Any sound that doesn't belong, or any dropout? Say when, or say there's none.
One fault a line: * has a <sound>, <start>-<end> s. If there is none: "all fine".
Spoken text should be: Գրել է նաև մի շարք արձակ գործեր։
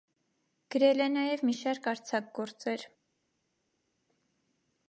all fine